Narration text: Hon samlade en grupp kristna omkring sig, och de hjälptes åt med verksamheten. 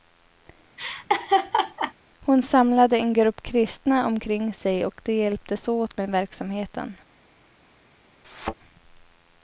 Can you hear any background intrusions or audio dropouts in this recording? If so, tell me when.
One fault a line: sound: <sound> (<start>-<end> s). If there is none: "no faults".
sound: laugh (0.8-1.9 s)
sound: thud (8.2-8.5 s)